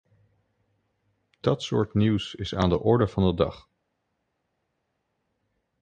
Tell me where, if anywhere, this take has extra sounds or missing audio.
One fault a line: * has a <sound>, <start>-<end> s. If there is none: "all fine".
all fine